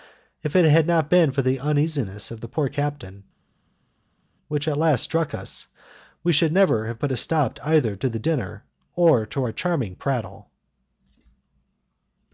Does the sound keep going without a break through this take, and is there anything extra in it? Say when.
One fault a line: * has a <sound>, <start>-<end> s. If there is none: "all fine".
all fine